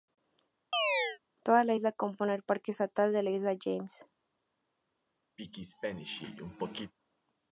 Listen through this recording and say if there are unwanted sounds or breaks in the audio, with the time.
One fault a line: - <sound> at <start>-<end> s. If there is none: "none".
- chirp at 0.7-1.2 s
- throat clearing at 5.4-6.9 s